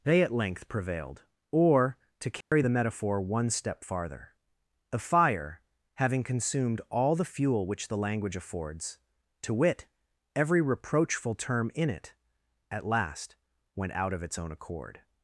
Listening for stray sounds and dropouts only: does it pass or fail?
fail